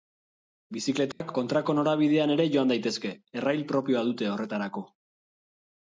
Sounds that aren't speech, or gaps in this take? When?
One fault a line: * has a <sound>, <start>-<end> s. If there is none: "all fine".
* has a dropout, 1.1-1.2 s